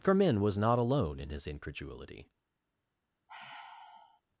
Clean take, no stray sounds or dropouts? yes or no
no